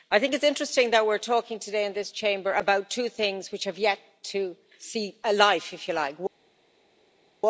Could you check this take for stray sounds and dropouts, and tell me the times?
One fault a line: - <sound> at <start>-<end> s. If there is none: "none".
none